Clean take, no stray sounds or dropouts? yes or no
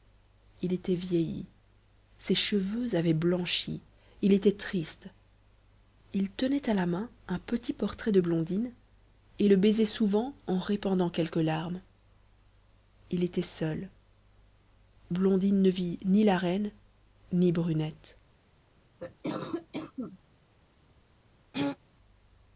no